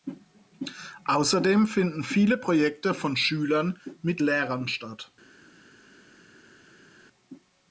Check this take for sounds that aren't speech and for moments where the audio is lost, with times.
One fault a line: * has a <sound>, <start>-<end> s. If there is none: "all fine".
all fine